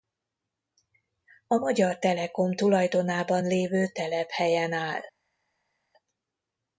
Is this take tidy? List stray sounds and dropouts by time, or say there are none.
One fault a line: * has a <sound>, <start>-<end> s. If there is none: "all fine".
all fine